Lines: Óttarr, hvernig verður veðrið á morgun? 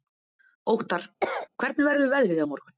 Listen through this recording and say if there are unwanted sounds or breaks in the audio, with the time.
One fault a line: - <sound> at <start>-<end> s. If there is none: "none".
- cough at 1.2-1.5 s